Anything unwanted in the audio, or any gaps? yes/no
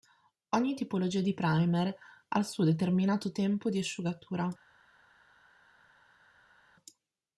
no